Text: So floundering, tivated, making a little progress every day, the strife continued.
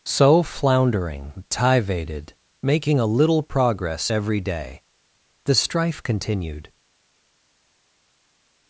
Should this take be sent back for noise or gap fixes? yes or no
no